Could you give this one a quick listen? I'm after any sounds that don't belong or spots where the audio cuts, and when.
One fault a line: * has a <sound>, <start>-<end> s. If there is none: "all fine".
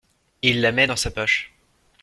all fine